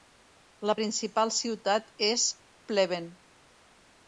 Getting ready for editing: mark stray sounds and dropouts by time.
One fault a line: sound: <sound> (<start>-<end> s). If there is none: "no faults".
no faults